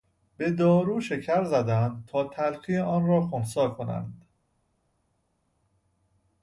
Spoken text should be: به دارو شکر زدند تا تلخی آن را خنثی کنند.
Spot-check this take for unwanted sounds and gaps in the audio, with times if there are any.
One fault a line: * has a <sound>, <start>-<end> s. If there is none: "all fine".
all fine